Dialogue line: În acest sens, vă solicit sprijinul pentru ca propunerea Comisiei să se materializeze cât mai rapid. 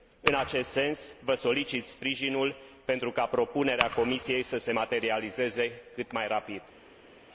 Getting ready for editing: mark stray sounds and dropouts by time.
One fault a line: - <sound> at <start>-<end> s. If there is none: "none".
none